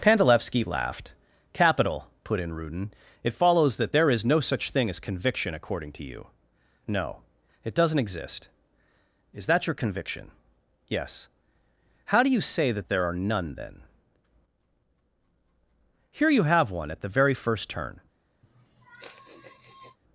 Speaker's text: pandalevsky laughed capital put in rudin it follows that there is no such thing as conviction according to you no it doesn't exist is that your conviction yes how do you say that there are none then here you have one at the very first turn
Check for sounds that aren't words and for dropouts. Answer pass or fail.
fail